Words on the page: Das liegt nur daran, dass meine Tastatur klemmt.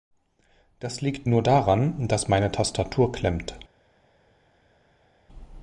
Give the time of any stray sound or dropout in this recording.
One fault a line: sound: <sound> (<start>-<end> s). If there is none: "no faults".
no faults